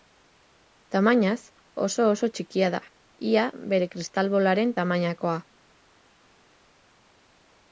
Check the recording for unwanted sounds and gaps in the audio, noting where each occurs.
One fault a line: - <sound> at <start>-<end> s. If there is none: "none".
none